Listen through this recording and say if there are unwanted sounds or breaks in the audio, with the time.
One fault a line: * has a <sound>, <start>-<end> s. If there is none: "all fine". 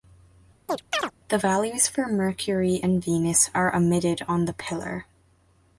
* has a chirp, 0.7-1.1 s